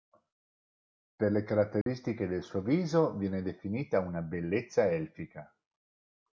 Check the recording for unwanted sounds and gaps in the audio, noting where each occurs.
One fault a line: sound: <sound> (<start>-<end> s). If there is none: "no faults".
sound: dropout (1.8-1.9 s)